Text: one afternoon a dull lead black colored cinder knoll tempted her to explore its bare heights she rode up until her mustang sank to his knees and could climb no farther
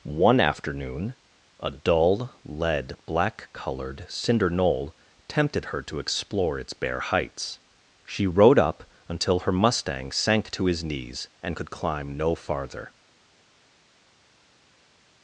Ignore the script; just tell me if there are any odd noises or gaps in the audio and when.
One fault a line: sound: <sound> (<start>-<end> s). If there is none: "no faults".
no faults